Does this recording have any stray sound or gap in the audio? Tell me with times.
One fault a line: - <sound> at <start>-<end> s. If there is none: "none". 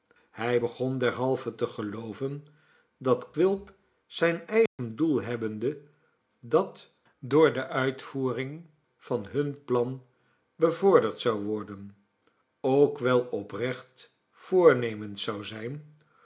- dropout at 4.7-4.8 s